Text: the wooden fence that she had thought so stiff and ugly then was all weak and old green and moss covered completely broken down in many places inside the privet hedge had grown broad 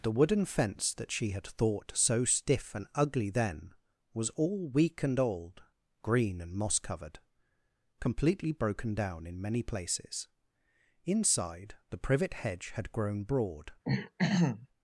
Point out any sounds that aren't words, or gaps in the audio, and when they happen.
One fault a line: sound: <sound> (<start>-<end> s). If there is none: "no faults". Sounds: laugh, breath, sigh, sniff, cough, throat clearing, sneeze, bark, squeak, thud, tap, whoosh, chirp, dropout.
sound: throat clearing (13.8-14.7 s)